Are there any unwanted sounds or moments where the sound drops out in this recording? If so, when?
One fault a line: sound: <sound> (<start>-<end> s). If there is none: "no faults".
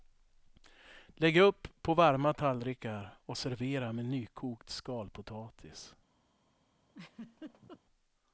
sound: laugh (6.9-7.8 s)